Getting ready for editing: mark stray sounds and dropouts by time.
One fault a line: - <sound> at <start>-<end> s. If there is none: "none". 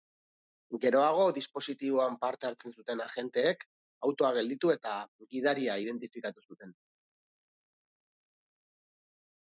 none